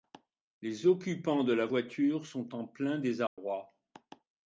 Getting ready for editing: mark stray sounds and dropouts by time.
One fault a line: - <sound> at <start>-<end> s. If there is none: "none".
- dropout at 3.3-3.4 s